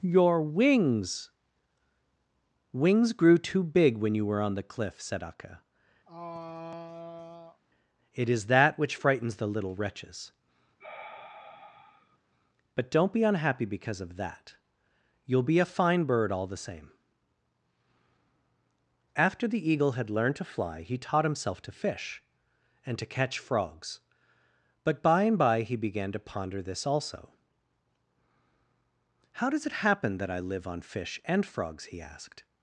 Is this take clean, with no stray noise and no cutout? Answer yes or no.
no